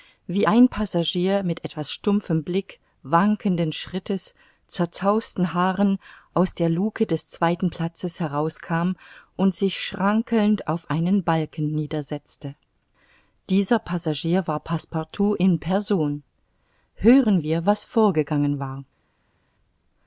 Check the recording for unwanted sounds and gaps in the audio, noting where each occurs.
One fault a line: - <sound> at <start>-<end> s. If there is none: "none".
none